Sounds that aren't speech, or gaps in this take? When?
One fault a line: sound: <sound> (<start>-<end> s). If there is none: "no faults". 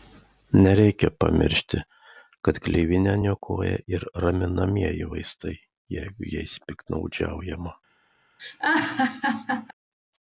sound: laugh (8.4-9.7 s)